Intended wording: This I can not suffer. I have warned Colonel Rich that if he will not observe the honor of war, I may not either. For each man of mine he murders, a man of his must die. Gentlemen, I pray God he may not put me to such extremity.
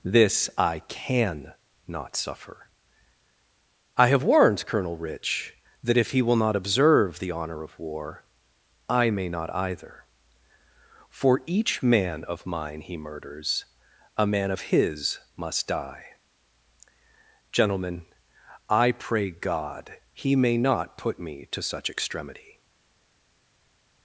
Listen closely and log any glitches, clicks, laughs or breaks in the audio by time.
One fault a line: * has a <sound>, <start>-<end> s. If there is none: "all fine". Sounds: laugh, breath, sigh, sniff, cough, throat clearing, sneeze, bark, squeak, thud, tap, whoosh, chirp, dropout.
all fine